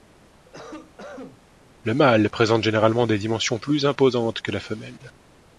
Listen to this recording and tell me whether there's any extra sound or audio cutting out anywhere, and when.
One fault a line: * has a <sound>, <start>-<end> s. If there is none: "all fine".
* has a cough, 0.4-1.4 s